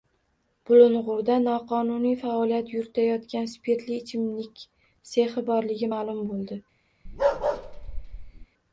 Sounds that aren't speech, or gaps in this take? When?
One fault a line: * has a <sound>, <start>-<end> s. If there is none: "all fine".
* has a bark, 7.1-8.5 s